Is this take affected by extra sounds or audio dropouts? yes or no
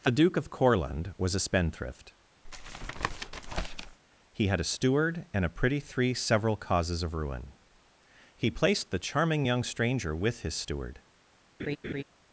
yes